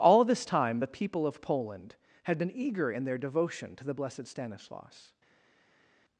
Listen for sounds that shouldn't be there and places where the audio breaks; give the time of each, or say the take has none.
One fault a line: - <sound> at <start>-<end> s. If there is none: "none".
none